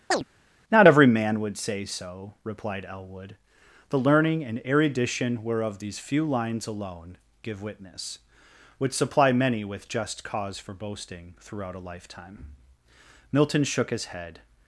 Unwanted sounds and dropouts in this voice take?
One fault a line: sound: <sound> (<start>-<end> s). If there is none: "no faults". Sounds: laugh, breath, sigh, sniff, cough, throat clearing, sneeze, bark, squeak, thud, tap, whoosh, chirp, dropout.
sound: chirp (0.1-0.2 s)